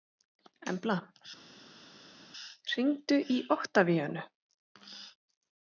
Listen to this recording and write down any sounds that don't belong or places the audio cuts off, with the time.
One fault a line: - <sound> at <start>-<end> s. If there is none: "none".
none